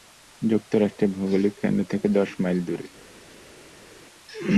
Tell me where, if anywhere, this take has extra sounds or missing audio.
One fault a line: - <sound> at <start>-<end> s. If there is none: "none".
none